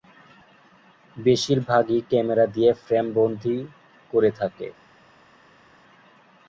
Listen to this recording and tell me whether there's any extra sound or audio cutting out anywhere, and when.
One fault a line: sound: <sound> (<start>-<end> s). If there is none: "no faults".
no faults